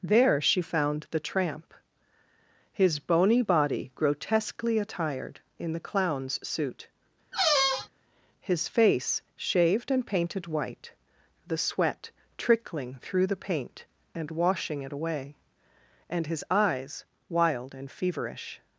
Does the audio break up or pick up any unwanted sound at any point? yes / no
yes